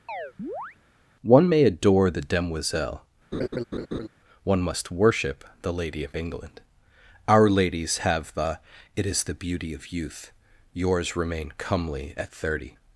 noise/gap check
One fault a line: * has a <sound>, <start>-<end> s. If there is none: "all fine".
* has a chirp, 0.1-0.8 s
* has a laugh, 3.3-4.1 s